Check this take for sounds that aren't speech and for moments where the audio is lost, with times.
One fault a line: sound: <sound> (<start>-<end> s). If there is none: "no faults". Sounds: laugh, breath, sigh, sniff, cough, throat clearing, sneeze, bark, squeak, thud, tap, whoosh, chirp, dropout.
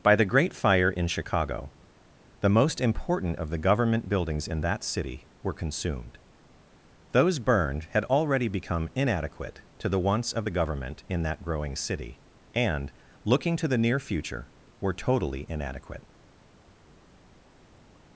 no faults